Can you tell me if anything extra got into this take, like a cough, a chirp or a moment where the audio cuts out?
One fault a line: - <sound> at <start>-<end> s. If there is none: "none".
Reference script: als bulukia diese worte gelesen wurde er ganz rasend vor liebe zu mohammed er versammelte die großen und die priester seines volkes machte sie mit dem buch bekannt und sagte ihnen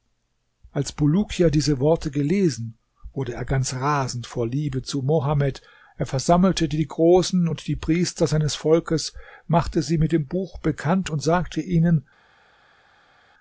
none